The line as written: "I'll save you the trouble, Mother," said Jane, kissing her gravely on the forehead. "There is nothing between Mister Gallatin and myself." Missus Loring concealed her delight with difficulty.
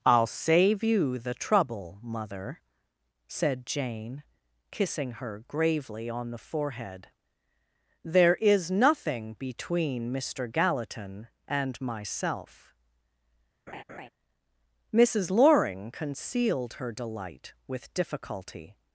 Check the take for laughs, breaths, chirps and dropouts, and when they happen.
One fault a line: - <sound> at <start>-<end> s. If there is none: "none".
- laugh at 13.7-14.1 s